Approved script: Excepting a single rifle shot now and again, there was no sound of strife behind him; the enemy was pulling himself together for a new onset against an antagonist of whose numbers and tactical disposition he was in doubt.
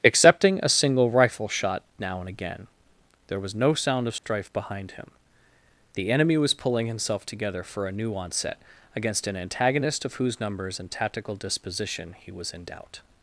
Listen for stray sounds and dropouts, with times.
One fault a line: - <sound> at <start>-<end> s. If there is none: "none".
- dropout at 4.2-4.2 s